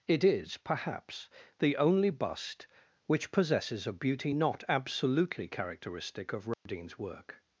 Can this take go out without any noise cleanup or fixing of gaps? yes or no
no